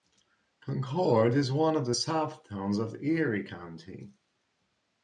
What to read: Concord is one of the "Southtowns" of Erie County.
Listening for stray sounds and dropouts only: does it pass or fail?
pass